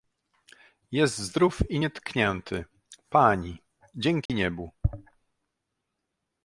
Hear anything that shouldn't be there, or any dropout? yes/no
yes